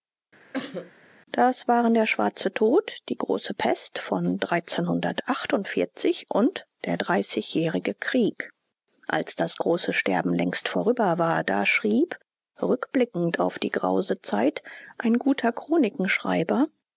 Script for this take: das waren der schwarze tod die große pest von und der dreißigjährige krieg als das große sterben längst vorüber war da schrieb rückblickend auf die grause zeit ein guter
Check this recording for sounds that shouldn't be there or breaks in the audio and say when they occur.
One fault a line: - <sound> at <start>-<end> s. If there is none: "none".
- cough at 0.5-0.9 s